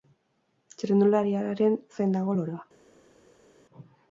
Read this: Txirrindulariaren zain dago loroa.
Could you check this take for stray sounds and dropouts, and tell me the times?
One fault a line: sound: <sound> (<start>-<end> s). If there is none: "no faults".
no faults